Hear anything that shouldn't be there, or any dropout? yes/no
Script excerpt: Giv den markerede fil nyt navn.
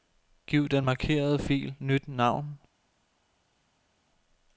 no